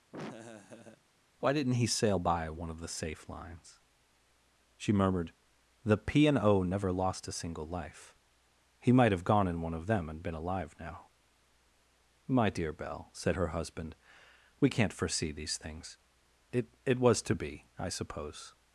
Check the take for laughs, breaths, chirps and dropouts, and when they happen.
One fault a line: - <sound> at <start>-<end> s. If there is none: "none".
- laugh at 0.1-1.0 s